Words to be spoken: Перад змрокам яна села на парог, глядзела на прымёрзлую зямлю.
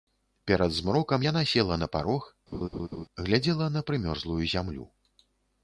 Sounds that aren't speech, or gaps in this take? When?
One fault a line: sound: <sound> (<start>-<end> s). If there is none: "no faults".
sound: laugh (2.5-3.1 s)